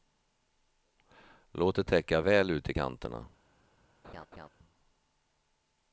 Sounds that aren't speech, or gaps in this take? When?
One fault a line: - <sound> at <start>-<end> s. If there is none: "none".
- laugh at 4.0-4.5 s